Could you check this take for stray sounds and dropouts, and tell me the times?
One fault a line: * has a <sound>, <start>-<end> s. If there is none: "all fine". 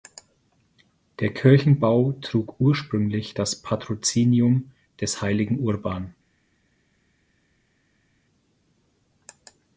all fine